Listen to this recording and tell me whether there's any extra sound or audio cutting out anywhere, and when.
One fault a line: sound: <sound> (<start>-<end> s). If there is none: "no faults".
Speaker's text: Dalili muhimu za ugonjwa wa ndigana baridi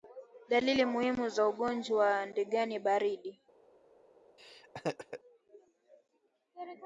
sound: laugh (4.4-5.2 s)